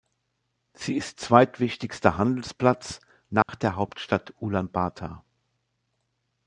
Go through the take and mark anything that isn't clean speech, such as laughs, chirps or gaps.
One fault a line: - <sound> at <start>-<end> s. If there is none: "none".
- dropout at 3.4-3.5 s